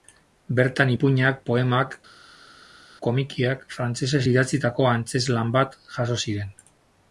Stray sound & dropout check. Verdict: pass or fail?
pass